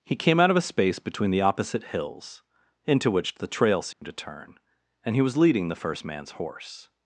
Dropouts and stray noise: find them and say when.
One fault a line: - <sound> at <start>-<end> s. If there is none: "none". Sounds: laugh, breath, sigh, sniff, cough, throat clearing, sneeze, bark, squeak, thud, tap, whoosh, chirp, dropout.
- dropout at 3.9-4.0 s